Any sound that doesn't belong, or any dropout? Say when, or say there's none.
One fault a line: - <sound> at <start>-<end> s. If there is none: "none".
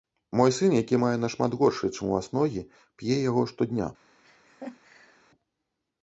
- laugh at 4.2-5.2 s